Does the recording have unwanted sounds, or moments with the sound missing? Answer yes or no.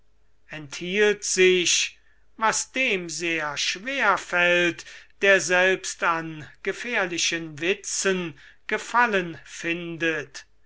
no